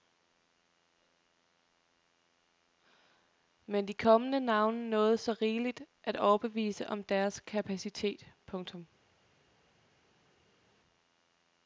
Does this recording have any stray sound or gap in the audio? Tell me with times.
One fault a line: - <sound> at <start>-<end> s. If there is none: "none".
none